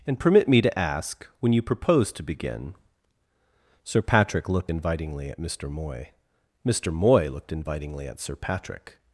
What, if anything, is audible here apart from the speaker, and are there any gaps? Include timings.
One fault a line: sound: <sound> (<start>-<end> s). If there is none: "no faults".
no faults